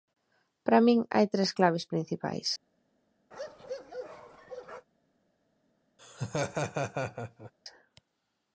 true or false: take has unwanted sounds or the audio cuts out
true